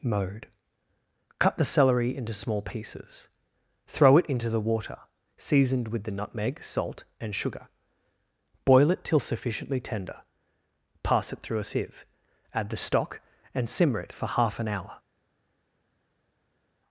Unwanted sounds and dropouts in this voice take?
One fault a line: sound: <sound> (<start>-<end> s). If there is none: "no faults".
no faults